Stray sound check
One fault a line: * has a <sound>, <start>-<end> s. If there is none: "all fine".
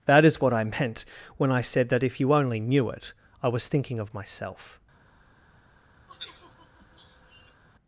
* has a sigh, 6.1-7.6 s